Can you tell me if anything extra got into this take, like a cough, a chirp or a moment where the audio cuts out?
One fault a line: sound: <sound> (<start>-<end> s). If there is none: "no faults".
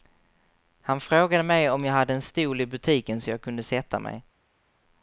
no faults